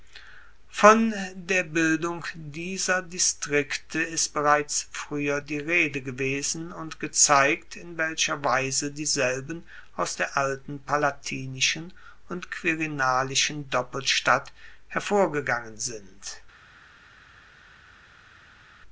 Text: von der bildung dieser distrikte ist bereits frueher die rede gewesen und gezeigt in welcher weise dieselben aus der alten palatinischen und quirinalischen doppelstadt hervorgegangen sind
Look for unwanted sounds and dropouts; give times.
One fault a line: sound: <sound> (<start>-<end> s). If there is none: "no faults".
no faults